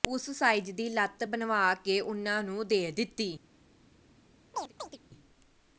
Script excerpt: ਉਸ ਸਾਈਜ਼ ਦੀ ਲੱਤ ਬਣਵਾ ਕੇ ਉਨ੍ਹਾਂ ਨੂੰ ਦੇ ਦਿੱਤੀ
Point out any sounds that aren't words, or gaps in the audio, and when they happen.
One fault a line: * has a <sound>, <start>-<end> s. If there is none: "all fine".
* has a chirp, 4.5-5.0 s